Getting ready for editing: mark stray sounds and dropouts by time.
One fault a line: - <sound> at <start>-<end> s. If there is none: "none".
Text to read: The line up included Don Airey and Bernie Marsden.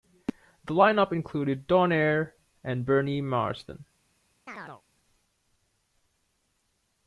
- chirp at 4.5-4.8 s